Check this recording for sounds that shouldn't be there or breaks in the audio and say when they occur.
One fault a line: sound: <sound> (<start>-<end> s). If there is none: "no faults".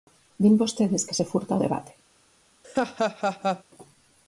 sound: laugh (2.6-3.6 s)